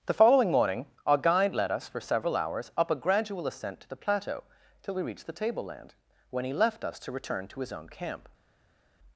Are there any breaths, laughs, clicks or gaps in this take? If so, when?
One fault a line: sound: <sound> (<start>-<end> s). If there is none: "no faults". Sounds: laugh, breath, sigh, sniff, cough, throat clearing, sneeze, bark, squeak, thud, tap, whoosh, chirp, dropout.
no faults